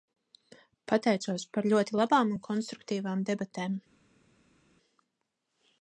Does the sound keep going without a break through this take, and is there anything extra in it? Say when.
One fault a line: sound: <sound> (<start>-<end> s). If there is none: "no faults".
no faults